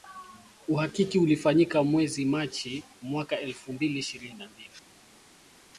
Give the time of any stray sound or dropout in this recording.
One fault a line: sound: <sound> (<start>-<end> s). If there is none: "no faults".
no faults